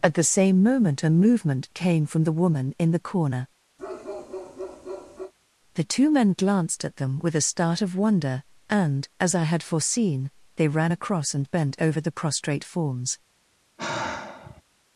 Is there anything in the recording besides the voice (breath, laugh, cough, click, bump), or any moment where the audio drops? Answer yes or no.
yes